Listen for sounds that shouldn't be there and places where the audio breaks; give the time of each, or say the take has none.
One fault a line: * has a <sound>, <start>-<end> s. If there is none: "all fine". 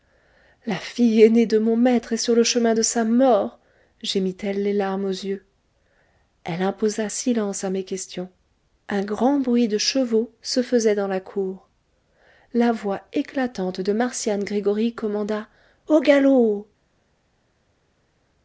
all fine